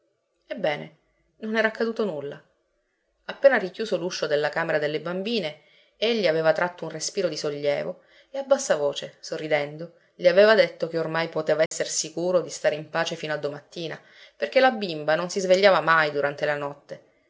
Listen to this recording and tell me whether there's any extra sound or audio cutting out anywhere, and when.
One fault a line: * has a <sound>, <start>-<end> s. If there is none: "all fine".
* has a dropout, 11.7-11.7 s